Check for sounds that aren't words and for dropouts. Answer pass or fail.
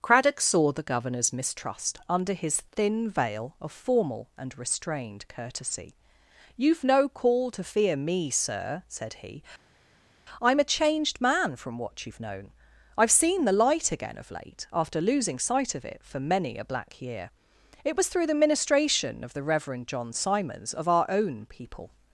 pass